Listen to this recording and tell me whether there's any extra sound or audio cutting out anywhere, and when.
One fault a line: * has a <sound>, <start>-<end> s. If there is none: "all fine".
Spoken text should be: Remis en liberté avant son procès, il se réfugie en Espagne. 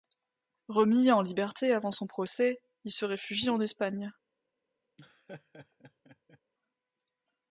* has a laugh, 5.0-6.4 s